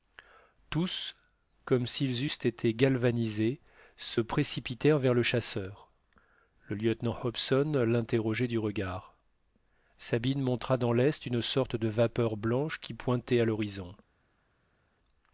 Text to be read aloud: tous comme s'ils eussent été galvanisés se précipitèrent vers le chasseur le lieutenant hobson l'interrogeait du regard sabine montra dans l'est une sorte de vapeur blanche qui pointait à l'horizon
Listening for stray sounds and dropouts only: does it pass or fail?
pass